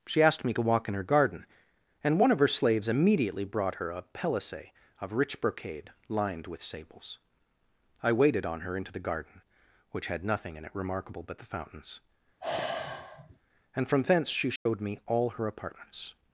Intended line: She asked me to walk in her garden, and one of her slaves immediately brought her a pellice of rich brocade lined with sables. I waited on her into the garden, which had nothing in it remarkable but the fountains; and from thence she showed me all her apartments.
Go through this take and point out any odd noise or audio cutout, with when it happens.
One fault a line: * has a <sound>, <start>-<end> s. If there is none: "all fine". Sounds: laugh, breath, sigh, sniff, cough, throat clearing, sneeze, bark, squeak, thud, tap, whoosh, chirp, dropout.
* has a sigh, 12.4-13.4 s
* has a dropout, 14.6-14.7 s